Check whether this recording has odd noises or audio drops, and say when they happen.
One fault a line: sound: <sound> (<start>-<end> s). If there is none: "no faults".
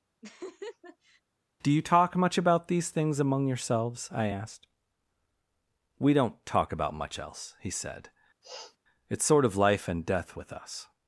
sound: laugh (0.2-1.2 s)
sound: sniff (8.4-8.8 s)